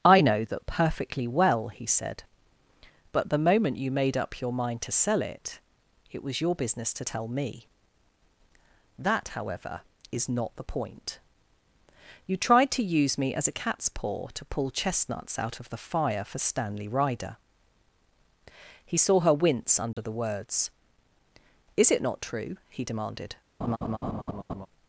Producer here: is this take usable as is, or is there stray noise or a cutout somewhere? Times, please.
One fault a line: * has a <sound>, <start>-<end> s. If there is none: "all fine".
* has a dropout, 19.9-20.0 s
* has a laugh, 23.6-24.7 s